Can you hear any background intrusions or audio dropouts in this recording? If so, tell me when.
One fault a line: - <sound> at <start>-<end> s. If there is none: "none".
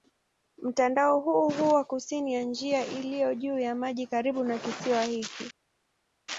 none